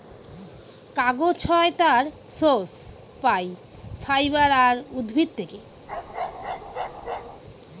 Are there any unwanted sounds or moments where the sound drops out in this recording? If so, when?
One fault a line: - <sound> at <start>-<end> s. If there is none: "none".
- bark at 5.9-7.4 s